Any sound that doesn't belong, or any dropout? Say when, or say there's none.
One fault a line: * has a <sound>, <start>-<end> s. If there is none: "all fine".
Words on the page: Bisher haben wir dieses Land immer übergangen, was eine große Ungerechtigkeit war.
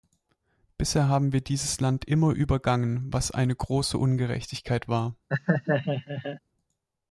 * has a laugh, 5.3-6.4 s